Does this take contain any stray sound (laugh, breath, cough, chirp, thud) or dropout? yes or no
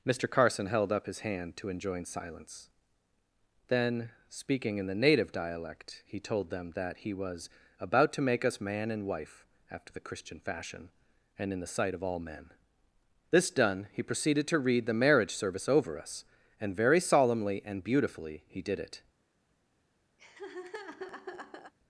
yes